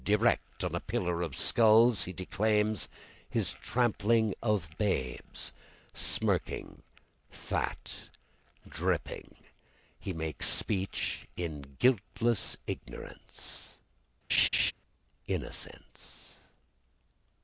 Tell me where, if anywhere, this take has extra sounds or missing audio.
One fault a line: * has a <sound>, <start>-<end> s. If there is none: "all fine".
* has a laugh, 14.3-14.7 s